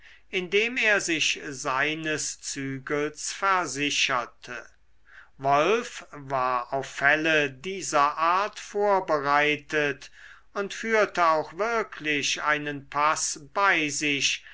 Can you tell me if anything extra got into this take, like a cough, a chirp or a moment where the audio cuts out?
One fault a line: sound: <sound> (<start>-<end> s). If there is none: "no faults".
no faults